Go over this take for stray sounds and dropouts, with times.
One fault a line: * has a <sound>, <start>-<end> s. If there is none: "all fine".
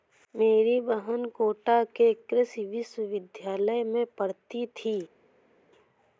all fine